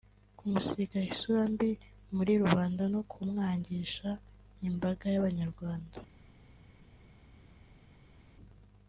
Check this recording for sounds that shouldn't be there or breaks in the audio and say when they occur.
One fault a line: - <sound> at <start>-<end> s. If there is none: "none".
none